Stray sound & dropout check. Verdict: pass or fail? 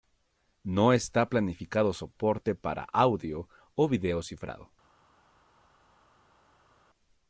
pass